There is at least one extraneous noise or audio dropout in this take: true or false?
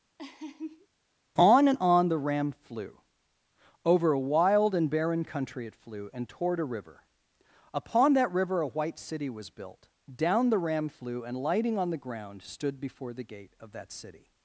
true